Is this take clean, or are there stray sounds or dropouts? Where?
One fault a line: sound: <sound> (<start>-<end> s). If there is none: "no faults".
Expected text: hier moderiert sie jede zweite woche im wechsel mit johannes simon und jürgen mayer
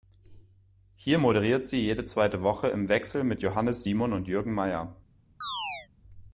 sound: chirp (5.4-5.9 s)